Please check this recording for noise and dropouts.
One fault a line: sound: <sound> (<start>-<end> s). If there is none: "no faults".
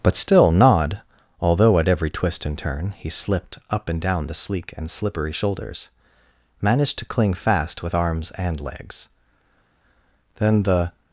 no faults